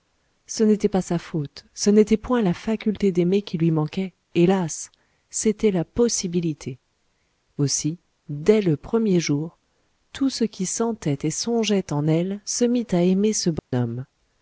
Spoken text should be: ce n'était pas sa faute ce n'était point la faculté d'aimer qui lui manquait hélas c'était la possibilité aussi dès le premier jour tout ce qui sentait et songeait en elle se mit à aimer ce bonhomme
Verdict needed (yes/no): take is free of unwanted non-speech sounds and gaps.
no